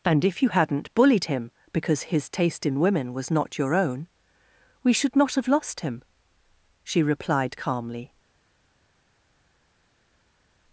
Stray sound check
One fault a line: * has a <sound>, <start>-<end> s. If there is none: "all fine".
all fine